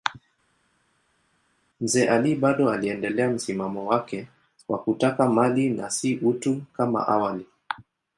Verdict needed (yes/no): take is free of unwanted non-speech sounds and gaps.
yes